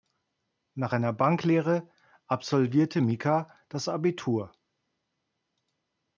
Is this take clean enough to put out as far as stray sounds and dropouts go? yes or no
yes